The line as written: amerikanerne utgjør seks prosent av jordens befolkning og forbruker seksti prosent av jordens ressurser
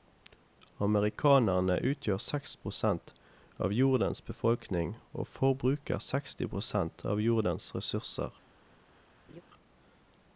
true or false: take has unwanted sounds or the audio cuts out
true